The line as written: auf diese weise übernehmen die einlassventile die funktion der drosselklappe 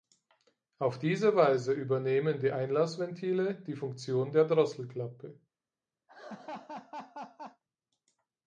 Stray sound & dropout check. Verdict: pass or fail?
fail